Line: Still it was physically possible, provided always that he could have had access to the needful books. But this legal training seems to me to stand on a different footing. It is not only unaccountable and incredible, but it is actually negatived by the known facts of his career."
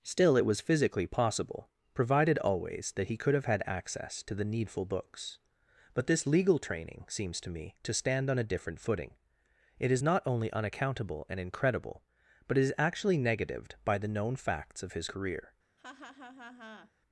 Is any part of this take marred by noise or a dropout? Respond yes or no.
yes